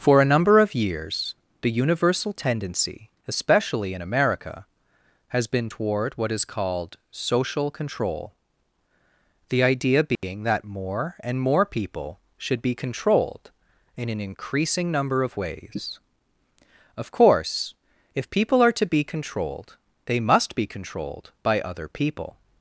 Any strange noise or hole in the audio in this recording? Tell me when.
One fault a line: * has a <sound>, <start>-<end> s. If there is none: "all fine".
* has a dropout, 10.2-10.2 s